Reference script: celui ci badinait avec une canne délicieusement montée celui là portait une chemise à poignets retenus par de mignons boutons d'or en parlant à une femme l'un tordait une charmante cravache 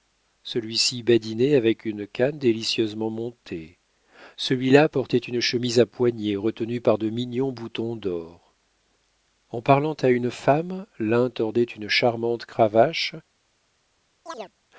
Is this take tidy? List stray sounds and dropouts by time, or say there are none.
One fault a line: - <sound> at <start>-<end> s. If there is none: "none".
- chirp at 14.3-14.5 s